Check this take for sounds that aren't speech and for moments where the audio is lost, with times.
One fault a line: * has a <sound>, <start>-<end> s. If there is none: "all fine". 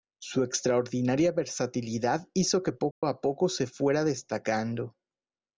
* has a dropout, 2.9-3.0 s